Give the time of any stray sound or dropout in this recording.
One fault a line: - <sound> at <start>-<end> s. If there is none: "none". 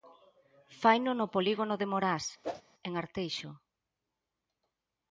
- whoosh at 2.4-2.6 s